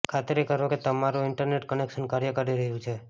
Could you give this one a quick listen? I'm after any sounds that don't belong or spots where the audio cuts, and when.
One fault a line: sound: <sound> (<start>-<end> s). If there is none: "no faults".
no faults